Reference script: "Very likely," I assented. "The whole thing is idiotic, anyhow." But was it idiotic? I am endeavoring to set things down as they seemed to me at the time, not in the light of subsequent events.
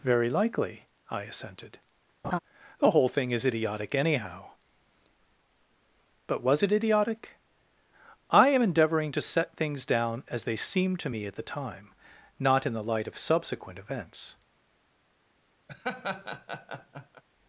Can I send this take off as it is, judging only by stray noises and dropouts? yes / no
no